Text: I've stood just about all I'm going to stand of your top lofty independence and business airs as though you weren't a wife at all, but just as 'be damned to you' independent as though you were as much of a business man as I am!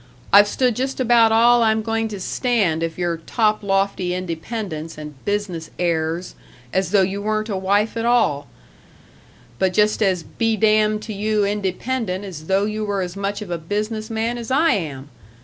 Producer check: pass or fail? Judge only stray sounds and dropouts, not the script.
pass